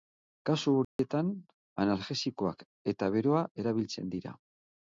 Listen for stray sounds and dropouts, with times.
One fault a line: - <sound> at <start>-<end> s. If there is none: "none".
- dropout at 0.8-1.0 s